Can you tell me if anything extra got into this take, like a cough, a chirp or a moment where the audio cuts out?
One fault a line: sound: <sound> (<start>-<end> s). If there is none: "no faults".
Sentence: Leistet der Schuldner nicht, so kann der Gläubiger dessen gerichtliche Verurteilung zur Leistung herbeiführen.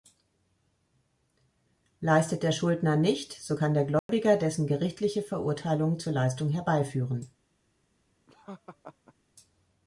sound: dropout (4.0-4.1 s)
sound: laugh (8.3-9.1 s)